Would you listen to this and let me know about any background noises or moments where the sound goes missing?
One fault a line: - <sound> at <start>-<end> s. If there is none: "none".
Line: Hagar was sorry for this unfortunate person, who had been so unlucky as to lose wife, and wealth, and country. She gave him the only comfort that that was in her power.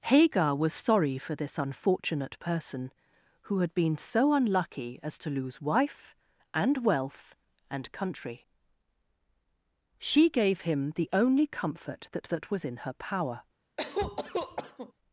- cough at 13.8-14.9 s